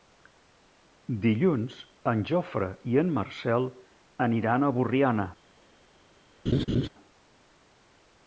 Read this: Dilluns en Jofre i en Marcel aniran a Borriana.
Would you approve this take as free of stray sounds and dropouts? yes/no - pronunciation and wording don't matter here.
no